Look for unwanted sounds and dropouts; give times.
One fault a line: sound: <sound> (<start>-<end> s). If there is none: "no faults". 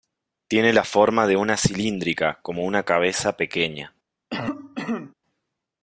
sound: cough (4.3-5.1 s)